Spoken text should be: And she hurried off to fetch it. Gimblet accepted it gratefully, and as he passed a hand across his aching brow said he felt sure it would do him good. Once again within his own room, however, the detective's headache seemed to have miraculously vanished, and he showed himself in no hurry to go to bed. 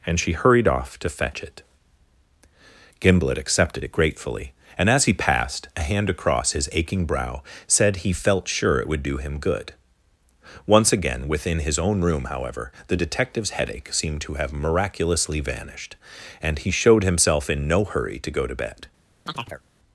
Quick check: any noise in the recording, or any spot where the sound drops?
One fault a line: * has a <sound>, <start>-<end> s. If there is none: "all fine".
* has a chirp, 19.3-19.6 s